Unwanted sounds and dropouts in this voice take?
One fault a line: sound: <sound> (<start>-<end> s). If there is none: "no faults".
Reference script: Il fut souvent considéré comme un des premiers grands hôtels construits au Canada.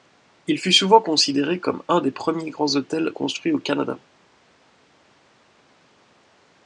no faults